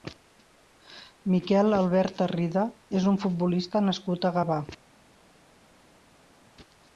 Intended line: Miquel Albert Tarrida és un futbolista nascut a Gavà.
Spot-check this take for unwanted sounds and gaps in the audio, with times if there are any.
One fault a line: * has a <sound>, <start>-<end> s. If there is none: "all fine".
all fine